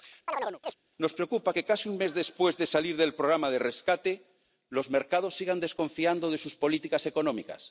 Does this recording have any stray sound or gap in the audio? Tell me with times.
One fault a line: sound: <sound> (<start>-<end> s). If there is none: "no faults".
sound: chirp (0.3-0.7 s)